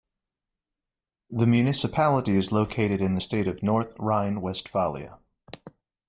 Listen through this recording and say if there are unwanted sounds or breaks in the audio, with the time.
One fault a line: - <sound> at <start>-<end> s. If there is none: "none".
none